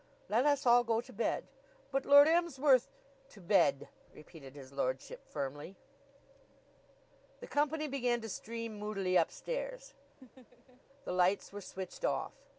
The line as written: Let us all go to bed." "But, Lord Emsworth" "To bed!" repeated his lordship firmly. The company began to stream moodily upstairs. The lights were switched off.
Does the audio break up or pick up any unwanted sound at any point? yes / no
yes